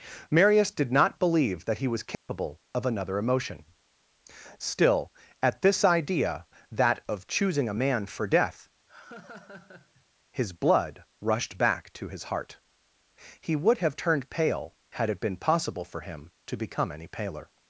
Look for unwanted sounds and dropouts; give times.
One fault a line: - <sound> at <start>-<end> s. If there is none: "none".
- dropout at 2.1-2.3 s
- laugh at 8.9-10.1 s